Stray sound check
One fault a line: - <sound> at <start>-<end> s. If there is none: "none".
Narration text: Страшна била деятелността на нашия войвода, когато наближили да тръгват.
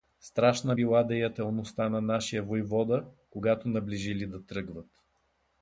none